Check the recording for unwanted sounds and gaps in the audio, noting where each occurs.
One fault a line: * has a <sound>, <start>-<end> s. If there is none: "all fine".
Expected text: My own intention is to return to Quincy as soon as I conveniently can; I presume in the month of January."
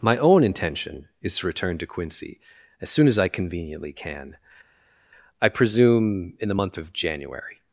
all fine